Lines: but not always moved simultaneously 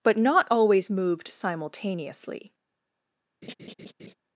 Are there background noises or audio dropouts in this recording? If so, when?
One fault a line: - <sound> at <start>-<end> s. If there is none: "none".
- laugh at 3.4-4.1 s